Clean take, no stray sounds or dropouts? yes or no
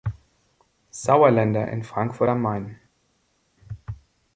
yes